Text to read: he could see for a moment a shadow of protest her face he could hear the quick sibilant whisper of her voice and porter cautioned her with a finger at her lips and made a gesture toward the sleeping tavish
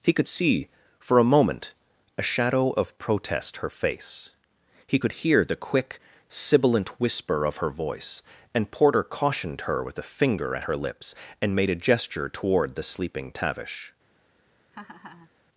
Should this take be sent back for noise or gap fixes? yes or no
yes